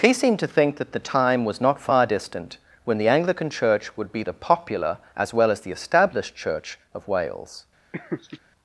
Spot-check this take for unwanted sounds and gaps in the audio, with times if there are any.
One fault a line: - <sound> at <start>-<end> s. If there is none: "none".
- laugh at 7.9-8.4 s